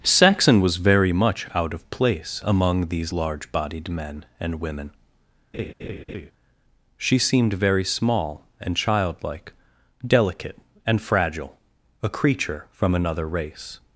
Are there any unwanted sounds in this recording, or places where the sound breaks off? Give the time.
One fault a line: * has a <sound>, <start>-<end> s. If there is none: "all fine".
* has a laugh, 5.5-6.3 s